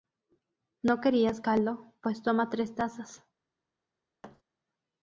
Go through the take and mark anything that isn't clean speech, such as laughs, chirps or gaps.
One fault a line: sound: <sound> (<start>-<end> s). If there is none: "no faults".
sound: thud (4.2-4.4 s)